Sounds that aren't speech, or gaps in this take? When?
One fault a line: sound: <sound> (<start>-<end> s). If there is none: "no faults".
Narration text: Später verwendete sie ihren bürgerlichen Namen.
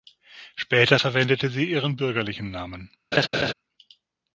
sound: laugh (3.1-3.5 s)